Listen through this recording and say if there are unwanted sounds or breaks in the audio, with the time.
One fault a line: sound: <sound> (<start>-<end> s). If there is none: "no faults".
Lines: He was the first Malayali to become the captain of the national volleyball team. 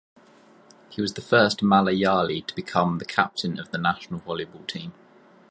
no faults